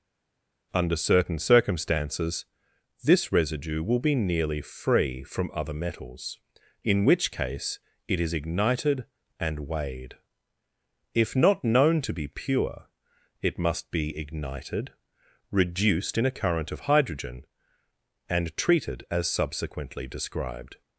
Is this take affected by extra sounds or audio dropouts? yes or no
no